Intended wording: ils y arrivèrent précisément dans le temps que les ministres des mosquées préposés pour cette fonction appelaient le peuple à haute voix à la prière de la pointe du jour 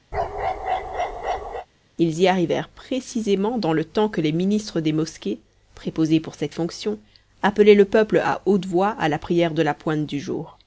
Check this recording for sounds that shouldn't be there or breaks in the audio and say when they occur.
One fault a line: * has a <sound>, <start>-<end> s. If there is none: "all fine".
* has a bark, 0.1-1.7 s